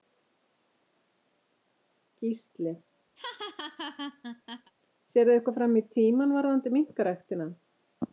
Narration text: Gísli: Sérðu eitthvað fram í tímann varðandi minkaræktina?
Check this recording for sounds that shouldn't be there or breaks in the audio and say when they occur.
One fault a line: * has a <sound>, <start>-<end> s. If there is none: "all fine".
* has a laugh, 3.2-4.7 s